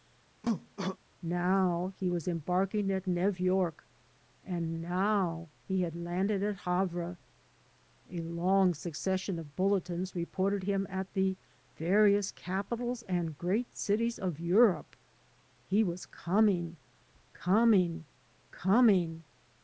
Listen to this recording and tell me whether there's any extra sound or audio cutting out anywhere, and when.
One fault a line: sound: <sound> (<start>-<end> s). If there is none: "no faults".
sound: cough (0.4-1.0 s)